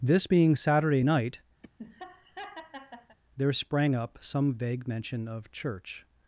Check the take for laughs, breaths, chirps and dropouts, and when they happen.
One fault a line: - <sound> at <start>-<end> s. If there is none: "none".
- laugh at 1.6-3.2 s